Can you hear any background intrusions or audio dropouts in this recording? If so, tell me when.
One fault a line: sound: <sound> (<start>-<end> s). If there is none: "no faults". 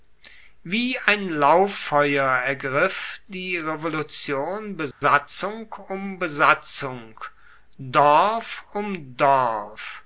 sound: dropout (4.9-5.0 s)